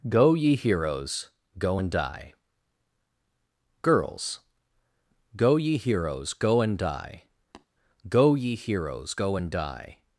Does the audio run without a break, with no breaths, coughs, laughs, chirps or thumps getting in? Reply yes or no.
no